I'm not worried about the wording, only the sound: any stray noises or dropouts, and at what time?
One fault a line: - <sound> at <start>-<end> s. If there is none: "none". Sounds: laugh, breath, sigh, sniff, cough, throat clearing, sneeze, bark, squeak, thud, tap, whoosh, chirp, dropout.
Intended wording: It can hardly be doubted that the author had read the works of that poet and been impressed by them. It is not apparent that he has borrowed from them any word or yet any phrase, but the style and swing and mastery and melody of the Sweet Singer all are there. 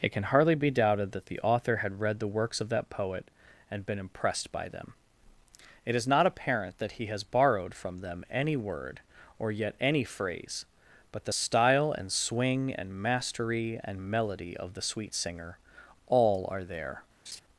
- laugh at 17.3-17.4 s